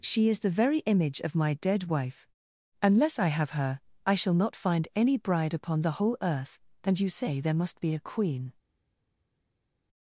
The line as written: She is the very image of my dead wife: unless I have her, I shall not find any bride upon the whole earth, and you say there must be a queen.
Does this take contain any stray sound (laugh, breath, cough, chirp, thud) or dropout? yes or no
no